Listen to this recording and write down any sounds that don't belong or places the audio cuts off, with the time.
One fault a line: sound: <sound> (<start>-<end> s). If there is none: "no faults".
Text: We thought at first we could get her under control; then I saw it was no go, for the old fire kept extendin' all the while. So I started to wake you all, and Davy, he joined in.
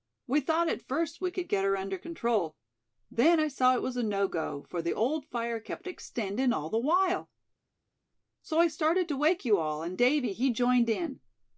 no faults